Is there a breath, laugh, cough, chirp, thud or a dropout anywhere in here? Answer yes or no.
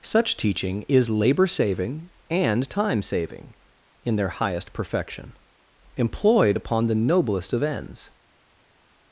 no